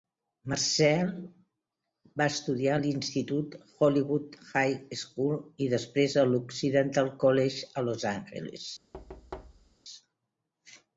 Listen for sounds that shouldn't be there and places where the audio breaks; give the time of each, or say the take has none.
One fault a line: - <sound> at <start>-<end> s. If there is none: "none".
- thud at 8.9-9.8 s